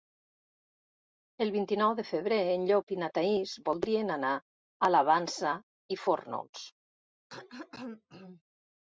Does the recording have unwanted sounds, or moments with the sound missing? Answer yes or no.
yes